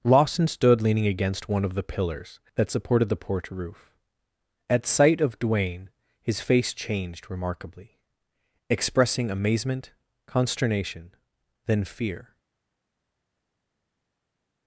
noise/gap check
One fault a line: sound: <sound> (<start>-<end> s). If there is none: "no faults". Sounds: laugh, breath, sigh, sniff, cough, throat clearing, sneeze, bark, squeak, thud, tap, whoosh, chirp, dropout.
no faults